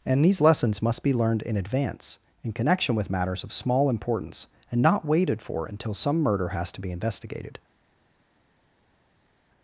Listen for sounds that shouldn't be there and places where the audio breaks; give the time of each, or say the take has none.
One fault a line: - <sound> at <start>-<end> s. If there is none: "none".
none